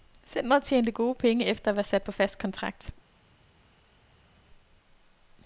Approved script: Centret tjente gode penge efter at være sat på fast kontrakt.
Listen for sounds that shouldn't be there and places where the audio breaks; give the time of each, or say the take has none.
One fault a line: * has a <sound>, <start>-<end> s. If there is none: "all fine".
all fine